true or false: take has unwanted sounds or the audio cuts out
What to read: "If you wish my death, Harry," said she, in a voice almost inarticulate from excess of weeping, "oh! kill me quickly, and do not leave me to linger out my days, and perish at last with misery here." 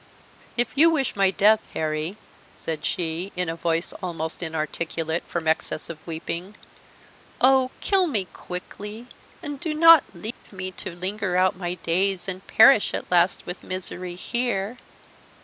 true